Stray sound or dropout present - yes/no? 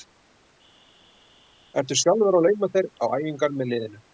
no